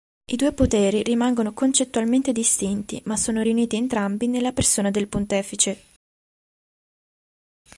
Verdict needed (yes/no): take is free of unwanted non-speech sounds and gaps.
yes